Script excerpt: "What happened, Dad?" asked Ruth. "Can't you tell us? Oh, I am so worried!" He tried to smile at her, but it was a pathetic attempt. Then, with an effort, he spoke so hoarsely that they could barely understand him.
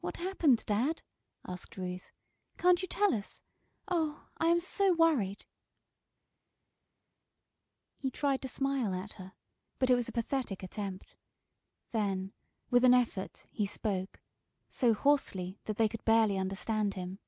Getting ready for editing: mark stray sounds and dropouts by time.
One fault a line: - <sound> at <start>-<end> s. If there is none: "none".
none